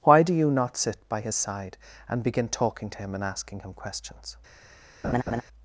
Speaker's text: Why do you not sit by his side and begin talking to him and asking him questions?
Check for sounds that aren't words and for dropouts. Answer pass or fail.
fail